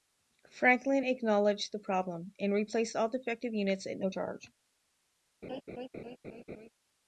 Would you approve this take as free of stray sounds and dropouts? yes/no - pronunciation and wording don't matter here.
no